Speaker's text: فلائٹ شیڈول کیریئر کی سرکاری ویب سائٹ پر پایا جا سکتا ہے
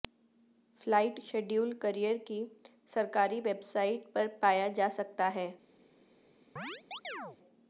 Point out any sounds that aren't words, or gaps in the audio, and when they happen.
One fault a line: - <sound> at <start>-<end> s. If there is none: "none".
- chirp at 6.6-7.4 s